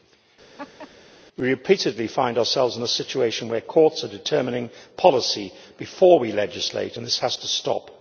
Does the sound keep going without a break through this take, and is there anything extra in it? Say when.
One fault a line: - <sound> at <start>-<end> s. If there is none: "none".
- laugh at 0.6-0.9 s